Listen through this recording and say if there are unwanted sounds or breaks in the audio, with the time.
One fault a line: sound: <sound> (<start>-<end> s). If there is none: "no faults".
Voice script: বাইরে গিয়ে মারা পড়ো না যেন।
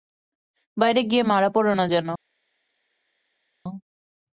no faults